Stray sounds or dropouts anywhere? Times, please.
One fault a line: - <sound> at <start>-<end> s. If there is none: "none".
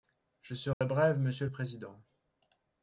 - dropout at 0.7-0.8 s